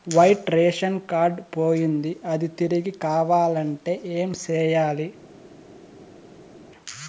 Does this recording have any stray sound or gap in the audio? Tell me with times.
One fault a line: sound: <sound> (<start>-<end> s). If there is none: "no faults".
no faults